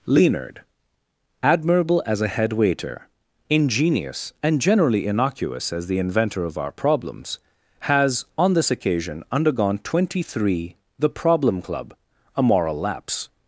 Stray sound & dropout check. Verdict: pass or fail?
pass